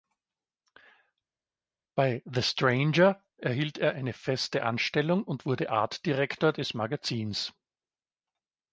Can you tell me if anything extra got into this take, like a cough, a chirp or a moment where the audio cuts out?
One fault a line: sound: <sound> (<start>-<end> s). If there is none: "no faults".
no faults